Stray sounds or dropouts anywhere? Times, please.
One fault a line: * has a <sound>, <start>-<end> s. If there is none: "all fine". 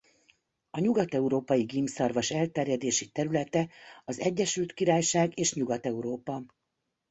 all fine